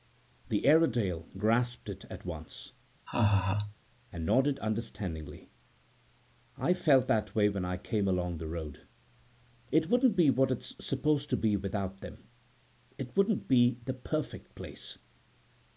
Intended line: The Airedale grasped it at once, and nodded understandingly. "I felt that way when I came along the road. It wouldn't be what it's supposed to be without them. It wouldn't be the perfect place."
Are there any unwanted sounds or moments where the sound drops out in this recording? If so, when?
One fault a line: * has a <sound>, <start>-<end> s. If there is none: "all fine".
* has a laugh, 3.1-3.8 s